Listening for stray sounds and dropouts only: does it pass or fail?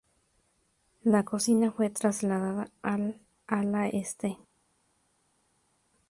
pass